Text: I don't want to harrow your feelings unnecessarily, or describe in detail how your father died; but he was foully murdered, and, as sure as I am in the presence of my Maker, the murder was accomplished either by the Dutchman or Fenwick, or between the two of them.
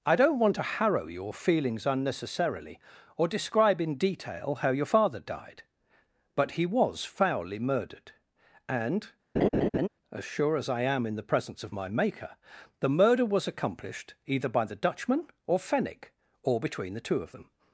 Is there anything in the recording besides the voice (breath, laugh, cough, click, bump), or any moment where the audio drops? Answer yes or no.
yes